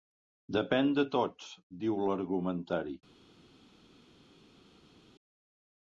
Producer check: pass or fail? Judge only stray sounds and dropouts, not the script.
pass